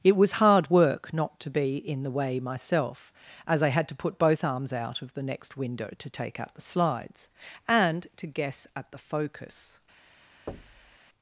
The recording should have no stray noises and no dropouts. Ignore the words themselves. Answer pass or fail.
fail